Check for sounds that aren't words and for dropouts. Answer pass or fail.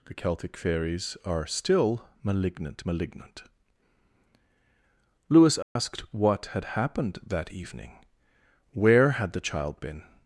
fail